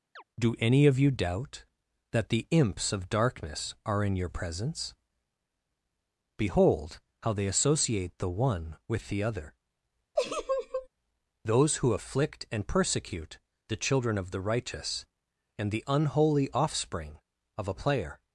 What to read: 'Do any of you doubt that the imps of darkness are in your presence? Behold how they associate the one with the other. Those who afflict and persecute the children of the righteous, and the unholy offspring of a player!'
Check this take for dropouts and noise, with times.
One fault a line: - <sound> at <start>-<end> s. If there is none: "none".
- chirp at 0.2-0.2 s
- laugh at 10.2-10.9 s